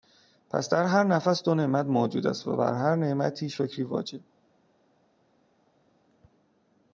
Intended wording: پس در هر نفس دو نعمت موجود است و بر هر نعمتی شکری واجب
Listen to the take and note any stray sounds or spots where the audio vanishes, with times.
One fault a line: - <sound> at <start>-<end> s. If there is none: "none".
none